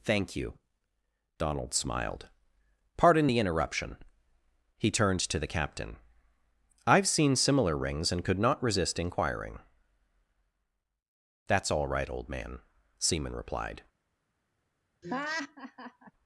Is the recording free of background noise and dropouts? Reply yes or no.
no